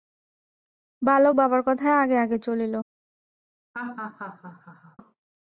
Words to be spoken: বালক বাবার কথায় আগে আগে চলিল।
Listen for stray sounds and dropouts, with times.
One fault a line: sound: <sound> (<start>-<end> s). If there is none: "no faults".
sound: laugh (3.7-5.0 s)